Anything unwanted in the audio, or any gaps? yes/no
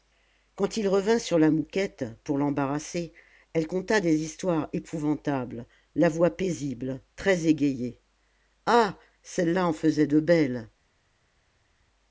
no